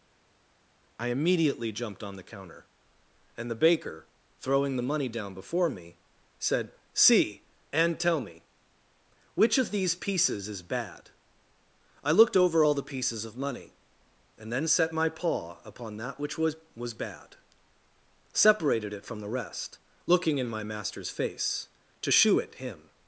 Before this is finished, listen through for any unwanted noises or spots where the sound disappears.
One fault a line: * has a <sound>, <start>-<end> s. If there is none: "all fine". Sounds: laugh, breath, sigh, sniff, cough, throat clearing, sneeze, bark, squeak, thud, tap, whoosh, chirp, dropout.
all fine